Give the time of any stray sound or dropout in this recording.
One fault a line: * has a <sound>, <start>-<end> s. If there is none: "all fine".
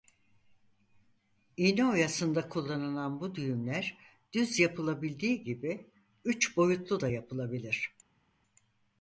all fine